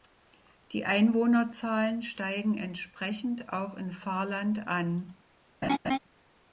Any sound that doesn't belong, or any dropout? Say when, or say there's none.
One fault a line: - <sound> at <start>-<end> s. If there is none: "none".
- laugh at 5.6-6.0 s